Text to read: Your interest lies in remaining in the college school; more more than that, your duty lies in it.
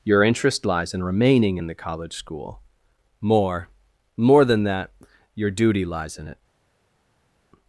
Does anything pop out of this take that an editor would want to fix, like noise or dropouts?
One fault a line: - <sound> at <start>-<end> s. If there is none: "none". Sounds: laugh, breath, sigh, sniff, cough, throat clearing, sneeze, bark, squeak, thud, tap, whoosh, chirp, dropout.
none